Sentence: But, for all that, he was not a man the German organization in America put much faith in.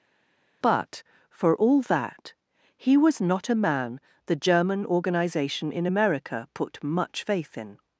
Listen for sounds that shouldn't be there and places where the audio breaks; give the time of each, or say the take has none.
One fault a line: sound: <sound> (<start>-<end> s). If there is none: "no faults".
no faults